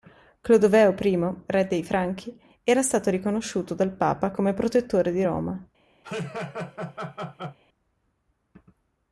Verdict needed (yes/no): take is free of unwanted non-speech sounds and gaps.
no